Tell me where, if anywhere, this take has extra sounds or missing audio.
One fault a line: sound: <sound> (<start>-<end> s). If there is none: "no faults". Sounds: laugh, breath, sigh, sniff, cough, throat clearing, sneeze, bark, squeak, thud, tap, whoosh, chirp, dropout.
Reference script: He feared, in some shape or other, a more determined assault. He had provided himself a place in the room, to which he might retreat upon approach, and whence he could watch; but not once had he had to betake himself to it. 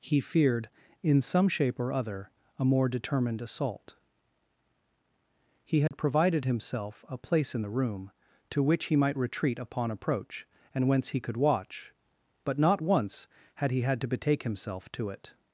sound: dropout (5.9-5.9 s)